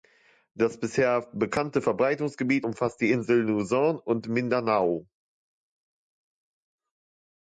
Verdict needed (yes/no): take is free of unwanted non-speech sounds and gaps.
yes